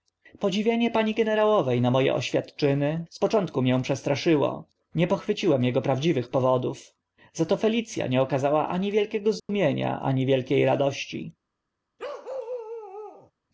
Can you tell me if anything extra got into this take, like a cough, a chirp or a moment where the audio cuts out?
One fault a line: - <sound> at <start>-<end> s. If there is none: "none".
- dropout at 9.4-9.5 s
- bark at 12.0-13.3 s